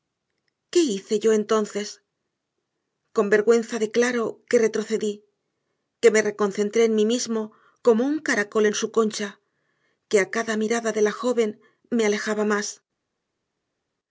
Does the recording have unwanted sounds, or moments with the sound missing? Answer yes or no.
no